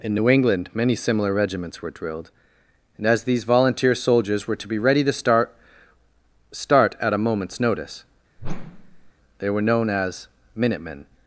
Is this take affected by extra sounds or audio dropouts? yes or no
yes